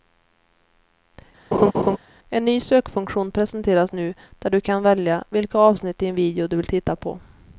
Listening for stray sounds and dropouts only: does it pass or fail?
fail